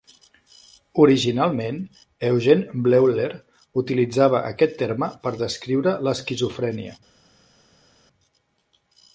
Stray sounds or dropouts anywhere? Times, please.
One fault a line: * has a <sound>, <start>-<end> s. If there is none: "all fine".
all fine